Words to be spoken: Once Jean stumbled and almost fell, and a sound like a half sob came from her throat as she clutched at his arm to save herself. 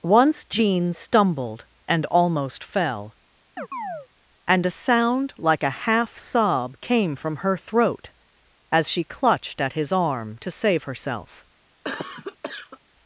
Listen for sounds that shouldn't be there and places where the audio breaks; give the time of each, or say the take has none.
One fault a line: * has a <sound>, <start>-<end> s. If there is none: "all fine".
* has a chirp, 3.6-4.1 s
* has a cough, 11.8-12.8 s